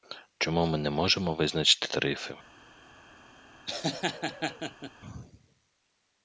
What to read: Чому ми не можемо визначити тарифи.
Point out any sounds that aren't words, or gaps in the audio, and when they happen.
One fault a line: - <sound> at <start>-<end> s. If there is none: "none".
- laugh at 3.7-4.9 s